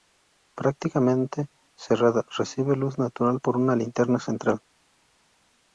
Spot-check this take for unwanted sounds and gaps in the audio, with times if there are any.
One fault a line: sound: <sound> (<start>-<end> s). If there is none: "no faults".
no faults